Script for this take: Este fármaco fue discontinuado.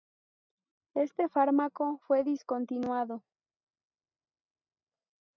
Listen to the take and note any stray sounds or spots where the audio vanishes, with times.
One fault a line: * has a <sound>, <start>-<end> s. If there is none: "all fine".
all fine